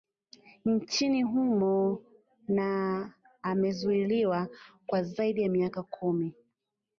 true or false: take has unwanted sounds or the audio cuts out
false